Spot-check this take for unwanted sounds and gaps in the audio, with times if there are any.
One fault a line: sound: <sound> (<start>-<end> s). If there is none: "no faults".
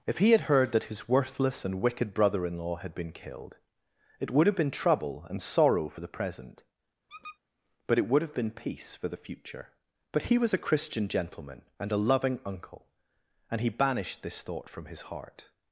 sound: squeak (7.1-7.4 s)